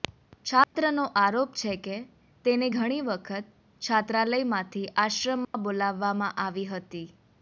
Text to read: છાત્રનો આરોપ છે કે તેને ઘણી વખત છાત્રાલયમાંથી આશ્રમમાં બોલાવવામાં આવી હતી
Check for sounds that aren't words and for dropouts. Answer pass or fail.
fail